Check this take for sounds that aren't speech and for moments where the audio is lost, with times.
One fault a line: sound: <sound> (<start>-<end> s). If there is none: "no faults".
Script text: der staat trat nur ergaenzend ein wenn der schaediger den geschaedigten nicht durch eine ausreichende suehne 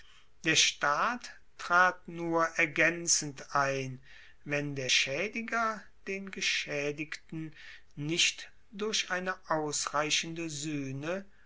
no faults